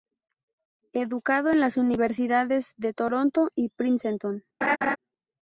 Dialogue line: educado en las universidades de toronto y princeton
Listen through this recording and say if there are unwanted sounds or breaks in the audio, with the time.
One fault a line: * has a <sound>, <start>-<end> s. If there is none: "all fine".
* has a laugh, 4.6-5.0 s